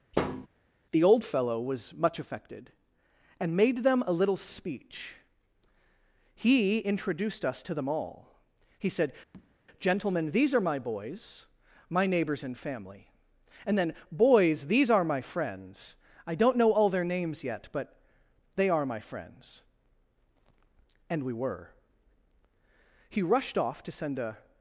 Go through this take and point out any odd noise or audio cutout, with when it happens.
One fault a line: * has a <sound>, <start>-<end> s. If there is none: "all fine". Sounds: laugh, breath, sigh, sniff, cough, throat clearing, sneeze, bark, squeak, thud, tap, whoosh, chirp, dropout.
* has a thud, 0.1-0.5 s
* has a tap, 9.3-9.6 s